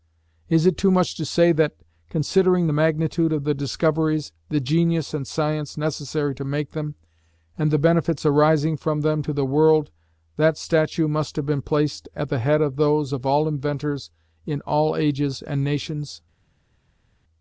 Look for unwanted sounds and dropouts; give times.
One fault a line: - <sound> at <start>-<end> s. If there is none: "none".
none